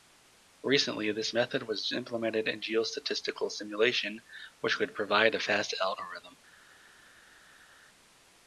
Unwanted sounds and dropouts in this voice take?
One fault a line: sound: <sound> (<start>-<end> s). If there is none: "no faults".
no faults